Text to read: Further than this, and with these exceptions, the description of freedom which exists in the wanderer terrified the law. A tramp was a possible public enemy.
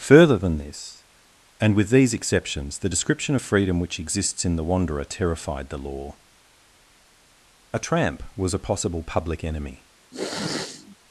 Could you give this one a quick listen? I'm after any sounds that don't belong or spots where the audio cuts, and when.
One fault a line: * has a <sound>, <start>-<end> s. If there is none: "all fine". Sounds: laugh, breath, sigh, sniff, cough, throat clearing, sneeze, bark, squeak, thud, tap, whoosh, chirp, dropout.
* has a sniff, 10.1-11.0 s